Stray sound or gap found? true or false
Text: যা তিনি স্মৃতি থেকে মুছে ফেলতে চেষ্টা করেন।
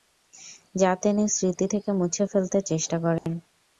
true